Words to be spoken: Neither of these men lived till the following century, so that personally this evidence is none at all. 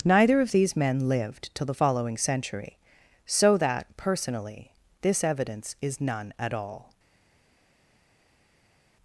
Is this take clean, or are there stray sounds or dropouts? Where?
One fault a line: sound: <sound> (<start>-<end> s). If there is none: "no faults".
no faults